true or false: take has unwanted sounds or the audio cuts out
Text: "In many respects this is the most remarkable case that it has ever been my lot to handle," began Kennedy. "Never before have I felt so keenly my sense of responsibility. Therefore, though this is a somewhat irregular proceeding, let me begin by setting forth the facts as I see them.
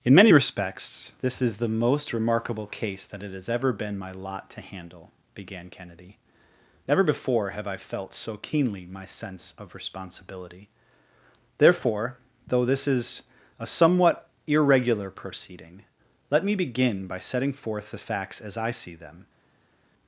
false